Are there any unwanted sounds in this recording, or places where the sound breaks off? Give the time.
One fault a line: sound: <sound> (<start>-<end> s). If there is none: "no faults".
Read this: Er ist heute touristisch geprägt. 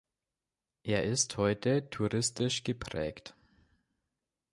no faults